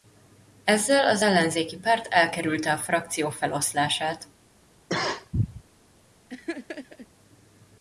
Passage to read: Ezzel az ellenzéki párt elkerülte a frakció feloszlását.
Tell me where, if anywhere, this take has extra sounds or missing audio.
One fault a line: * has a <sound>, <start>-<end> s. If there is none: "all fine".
* has a cough, 4.9-5.6 s
* has a laugh, 6.3-7.1 s